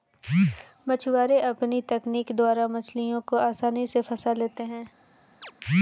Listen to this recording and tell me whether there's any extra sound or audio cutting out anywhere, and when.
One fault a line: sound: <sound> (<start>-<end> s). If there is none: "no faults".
sound: chirp (5.4-5.5 s)